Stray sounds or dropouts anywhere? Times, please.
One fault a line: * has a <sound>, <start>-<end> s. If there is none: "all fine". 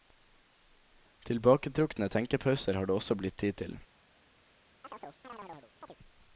* has a chirp, 4.8-6.0 s